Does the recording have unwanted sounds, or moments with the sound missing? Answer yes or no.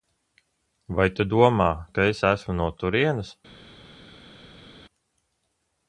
no